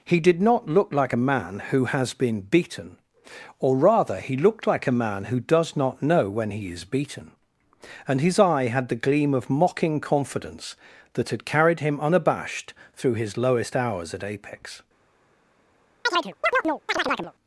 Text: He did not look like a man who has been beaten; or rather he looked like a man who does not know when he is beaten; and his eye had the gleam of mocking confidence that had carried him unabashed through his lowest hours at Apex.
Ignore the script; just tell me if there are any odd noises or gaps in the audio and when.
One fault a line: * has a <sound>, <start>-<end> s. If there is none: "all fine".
* has a chirp, 16.1-17.3 s